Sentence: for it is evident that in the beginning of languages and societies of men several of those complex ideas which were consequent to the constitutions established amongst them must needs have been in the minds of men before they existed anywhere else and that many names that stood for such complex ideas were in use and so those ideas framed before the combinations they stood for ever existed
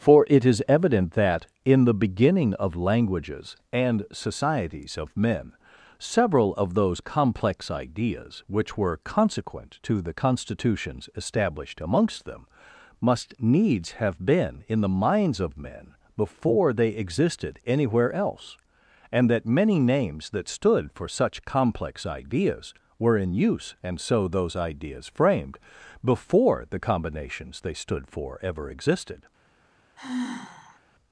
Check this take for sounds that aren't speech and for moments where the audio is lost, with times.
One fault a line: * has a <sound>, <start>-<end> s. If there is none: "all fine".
* has a sigh, 30.0-30.8 s